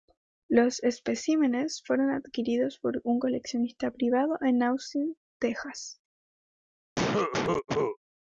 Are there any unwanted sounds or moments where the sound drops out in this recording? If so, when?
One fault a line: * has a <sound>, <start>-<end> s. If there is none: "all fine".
* has a cough, 7.0-8.0 s